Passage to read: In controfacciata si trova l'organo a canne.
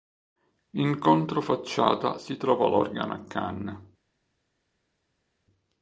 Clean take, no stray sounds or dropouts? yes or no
yes